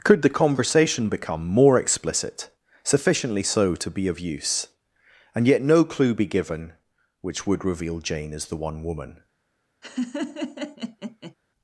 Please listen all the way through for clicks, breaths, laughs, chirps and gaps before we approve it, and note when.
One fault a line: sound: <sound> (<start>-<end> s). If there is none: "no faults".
sound: laugh (9.8-11.3 s)